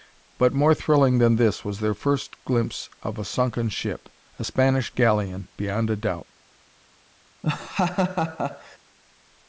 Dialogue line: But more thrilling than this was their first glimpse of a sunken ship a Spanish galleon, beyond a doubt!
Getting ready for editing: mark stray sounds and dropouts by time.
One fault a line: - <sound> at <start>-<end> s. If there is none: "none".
- laugh at 7.4-8.8 s